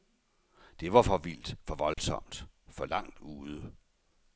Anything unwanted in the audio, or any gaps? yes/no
yes